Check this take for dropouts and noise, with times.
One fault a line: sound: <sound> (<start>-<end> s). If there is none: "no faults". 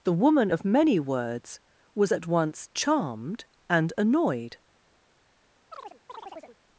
sound: chirp (5.7-6.6 s)